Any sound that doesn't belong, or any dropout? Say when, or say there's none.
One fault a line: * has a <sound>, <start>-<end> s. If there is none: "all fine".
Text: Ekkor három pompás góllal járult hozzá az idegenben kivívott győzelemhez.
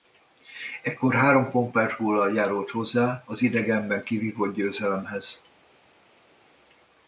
all fine